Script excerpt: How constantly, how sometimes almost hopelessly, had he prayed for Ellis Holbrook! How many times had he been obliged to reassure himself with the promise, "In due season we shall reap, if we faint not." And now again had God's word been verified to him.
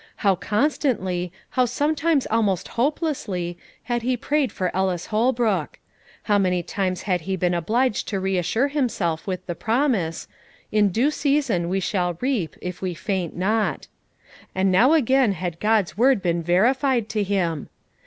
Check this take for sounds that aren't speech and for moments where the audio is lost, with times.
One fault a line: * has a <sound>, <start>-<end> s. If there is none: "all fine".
all fine